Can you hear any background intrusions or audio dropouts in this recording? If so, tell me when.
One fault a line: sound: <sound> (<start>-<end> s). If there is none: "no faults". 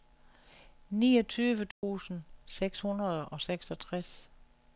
sound: dropout (1.7-1.8 s)